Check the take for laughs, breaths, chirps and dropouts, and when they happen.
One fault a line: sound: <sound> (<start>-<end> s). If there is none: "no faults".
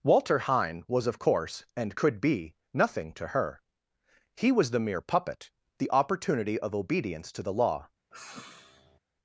sound: sigh (8.1-9.0 s)